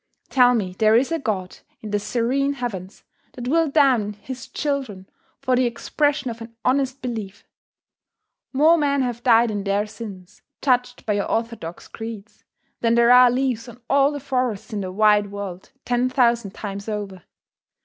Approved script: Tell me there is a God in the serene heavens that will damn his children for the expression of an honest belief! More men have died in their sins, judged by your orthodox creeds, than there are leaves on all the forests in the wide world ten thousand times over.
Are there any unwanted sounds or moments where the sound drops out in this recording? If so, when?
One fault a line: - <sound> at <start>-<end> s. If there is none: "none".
none